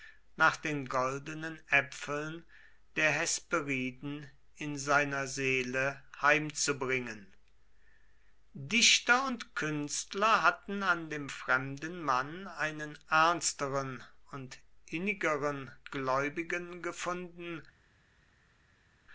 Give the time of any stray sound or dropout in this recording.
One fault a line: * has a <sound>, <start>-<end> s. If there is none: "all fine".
all fine